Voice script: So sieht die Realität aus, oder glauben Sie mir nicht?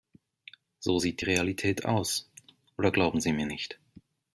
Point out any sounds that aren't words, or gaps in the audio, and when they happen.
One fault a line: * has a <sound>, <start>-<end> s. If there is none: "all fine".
all fine